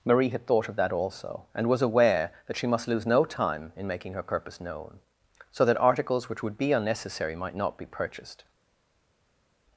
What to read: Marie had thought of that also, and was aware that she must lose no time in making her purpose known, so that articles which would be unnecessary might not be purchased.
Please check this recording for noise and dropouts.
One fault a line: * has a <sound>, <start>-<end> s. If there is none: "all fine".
all fine